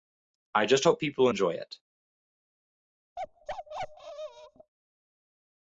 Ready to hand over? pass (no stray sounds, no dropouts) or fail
fail